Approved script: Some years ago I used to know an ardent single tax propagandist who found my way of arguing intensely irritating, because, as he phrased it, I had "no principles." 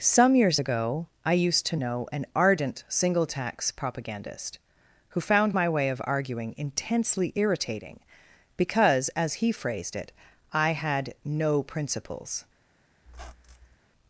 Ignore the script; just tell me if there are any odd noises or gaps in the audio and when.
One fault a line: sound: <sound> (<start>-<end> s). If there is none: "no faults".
sound: squeak (13.1-13.8 s)